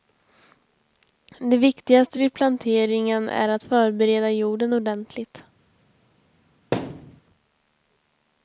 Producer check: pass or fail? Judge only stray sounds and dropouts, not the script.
fail